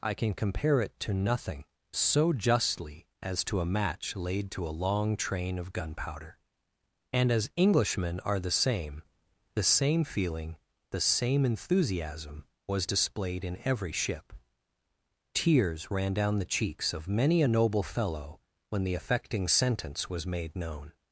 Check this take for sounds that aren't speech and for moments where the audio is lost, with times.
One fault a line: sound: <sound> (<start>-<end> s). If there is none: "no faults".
no faults